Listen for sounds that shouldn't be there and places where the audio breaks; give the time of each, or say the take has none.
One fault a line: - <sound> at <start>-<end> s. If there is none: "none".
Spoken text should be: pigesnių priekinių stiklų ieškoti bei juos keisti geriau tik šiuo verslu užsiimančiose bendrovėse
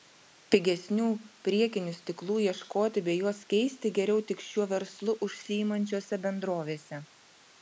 none